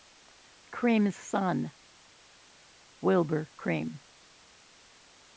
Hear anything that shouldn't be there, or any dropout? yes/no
no